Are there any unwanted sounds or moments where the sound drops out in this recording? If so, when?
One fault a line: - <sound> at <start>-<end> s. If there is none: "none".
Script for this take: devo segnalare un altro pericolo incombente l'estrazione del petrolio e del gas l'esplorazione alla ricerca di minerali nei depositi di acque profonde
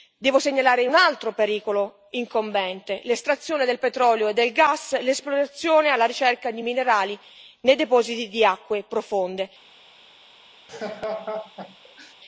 - laugh at 10.7-12.1 s